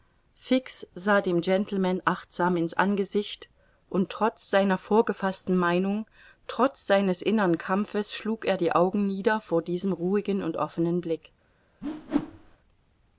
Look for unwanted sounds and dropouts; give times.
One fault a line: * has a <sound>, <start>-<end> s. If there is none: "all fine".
* has a whoosh, 11.8-12.6 s